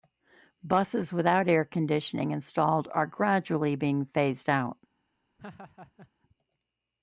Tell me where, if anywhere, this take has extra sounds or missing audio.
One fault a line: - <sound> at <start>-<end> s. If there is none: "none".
- laugh at 5.4-6.1 s